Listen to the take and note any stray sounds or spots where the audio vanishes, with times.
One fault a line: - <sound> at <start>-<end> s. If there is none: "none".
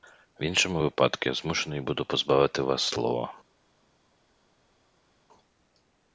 none